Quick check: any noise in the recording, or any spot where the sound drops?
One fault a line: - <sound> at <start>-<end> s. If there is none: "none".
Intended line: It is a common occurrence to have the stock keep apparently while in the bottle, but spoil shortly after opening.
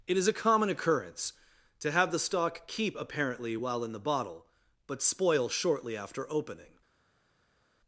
none